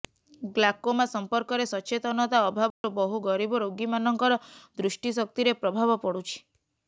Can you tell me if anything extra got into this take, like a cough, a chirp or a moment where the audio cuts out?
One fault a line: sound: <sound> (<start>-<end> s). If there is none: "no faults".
sound: dropout (2.7-2.8 s)